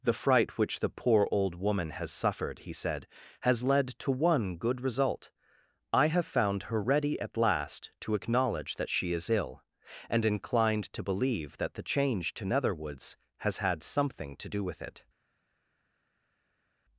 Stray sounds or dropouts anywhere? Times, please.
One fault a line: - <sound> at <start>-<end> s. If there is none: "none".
none